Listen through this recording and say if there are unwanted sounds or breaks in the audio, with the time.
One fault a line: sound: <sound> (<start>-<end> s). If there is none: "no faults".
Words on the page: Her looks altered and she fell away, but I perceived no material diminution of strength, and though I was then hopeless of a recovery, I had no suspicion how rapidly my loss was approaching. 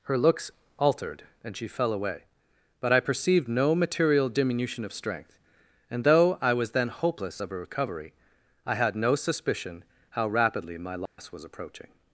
sound: dropout (11.1-11.2 s)